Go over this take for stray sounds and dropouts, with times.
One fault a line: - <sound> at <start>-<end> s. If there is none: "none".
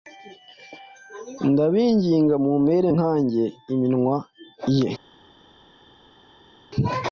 none